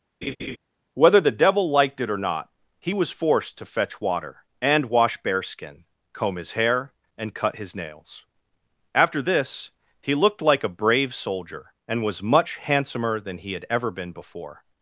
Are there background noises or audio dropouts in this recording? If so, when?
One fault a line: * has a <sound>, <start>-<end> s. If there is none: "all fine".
* has a laugh, 0.2-0.6 s